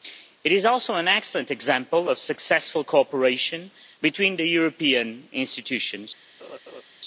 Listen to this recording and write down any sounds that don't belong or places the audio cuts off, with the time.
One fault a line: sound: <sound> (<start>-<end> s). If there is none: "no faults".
sound: laugh (6.4-6.8 s)